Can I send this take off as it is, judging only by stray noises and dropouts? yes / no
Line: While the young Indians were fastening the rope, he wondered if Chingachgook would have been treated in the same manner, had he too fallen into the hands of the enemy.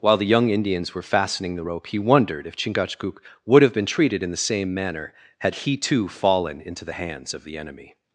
yes